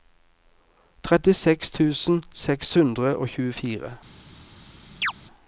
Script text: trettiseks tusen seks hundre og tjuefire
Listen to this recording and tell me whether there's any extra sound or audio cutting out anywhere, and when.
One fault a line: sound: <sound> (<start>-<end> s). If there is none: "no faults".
sound: chirp (5.0-5.1 s)